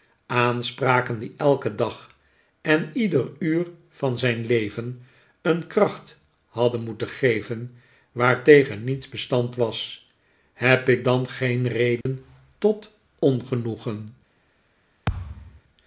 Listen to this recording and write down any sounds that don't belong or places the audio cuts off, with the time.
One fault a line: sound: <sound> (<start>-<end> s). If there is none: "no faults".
sound: dropout (12.0-12.1 s)
sound: thud (15.1-15.6 s)